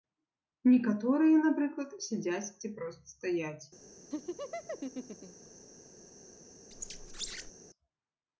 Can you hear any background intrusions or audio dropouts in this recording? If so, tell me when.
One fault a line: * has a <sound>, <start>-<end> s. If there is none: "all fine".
* has a laugh, 4.1-5.5 s
* has a squeak, 6.7-7.5 s